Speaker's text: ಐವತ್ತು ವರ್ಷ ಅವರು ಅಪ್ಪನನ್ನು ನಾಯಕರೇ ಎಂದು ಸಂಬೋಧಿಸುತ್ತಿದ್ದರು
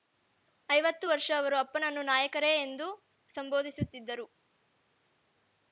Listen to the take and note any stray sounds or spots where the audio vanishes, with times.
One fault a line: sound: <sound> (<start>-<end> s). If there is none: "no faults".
no faults